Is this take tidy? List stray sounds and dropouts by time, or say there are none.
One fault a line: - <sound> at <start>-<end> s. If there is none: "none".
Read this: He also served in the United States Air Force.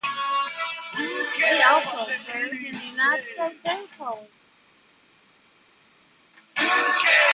none